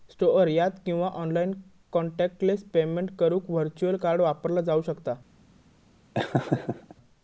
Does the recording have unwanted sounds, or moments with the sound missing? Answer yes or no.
yes